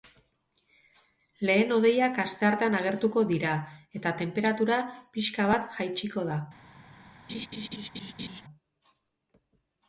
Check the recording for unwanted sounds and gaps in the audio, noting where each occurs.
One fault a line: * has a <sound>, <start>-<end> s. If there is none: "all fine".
* has a laugh, 7.3-8.4 s